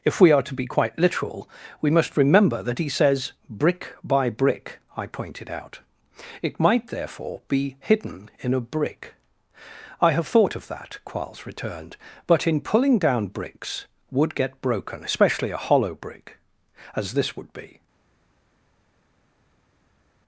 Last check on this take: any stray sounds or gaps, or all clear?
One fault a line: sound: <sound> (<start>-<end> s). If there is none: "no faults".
no faults